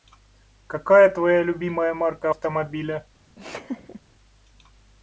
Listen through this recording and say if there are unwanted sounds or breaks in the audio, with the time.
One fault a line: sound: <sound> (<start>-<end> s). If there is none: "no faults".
sound: laugh (3.4-4.0 s)